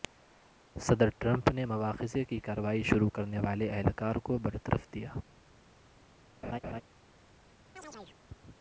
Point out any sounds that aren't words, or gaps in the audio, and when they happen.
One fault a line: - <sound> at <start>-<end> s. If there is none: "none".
- laugh at 6.4-6.8 s
- chirp at 7.8-8.2 s